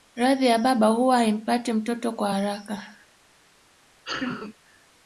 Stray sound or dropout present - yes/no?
yes